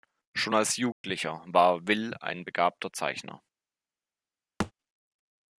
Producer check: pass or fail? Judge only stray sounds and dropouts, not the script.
fail